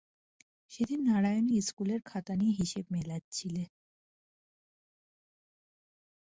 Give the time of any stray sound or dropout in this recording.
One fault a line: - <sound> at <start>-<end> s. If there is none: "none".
none